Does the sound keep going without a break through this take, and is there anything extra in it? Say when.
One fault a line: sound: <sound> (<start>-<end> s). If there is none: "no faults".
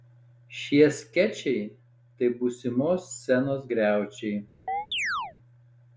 sound: chirp (4.7-5.3 s)